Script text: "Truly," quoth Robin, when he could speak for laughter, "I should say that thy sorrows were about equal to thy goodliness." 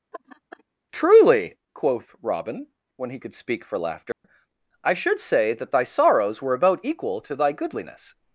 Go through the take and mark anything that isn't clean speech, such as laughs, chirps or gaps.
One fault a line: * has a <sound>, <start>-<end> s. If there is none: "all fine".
* has a laugh, 0.1-0.6 s
* has a dropout, 4.1-4.2 s